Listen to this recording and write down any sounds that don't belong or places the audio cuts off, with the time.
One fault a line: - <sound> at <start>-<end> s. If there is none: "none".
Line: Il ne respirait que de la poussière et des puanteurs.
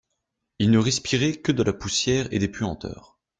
none